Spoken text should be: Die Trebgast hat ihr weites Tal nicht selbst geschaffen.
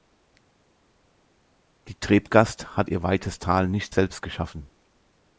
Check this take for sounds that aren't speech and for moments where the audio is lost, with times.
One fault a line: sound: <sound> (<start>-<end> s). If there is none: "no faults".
no faults